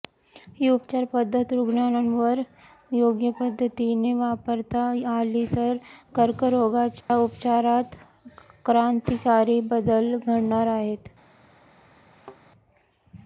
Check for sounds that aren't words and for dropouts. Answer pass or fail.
fail